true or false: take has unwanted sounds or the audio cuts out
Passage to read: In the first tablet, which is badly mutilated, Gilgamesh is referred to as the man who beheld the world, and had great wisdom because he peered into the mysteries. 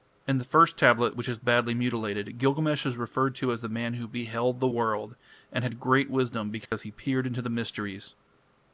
true